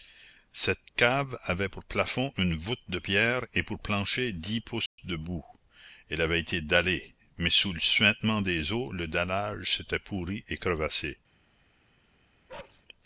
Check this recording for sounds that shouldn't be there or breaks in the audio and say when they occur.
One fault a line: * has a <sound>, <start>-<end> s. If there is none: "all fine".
* has a dropout, 4.9-5.0 s
* has a bark, 12.5-12.8 s